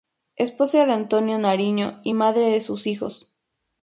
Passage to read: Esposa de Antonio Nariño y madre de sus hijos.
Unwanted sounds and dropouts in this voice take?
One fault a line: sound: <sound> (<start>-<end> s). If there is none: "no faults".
no faults